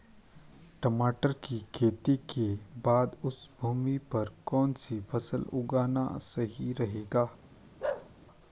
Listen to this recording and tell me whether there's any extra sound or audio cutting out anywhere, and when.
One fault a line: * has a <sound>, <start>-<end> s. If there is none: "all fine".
* has a bark, 7.8-8.1 s